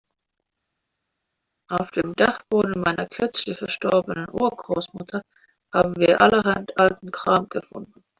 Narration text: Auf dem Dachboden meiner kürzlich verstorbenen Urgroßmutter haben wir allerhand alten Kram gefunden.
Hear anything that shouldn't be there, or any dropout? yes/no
no